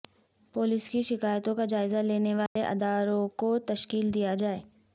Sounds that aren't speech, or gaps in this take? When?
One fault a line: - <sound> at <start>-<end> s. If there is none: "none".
- dropout at 2.5-2.6 s